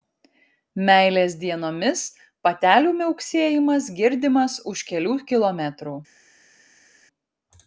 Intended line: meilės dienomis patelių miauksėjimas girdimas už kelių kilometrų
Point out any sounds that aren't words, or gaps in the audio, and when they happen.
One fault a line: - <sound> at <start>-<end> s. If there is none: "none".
none